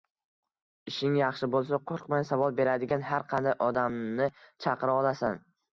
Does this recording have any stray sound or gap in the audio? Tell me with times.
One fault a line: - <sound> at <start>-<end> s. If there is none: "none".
none